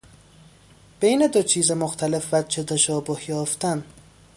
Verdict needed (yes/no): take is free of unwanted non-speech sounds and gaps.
yes